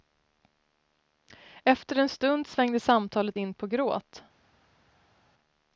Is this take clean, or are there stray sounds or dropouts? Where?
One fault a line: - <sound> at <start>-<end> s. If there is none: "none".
none